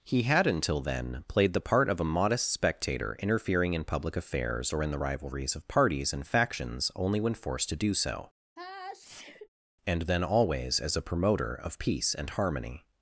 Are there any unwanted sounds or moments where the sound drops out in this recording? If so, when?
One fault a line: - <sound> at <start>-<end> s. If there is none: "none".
- sneeze at 8.6-9.5 s